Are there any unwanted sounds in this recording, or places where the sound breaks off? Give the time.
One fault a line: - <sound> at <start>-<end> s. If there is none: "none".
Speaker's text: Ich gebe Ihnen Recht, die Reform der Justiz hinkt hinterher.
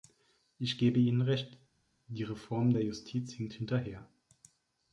none